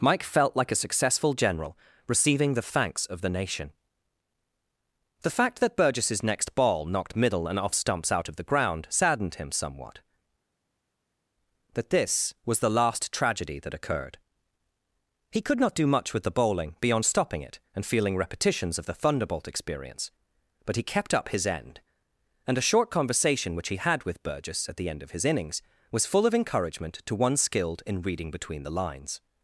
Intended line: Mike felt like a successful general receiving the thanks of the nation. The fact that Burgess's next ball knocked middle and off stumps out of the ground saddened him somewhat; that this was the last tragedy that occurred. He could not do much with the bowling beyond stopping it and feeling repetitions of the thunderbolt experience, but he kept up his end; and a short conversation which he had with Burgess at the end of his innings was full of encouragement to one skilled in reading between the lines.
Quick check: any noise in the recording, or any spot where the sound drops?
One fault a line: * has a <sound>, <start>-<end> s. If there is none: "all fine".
all fine